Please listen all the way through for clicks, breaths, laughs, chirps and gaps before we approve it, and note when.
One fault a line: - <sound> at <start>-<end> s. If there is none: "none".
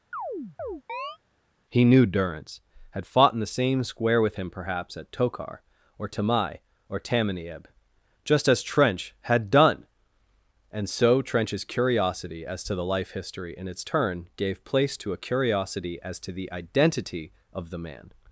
- chirp at 0.1-1.2 s